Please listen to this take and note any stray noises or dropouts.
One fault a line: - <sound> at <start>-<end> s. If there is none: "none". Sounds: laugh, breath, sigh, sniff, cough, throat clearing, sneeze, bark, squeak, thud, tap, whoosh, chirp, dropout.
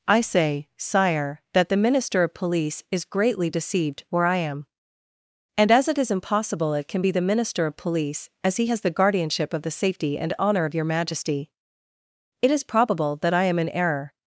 none